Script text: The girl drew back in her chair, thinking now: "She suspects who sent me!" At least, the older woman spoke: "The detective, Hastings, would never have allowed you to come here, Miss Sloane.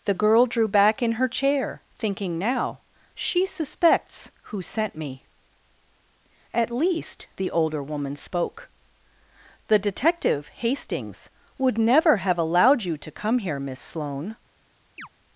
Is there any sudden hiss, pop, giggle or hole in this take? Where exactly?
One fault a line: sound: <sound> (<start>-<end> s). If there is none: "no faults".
sound: chirp (15.0-15.1 s)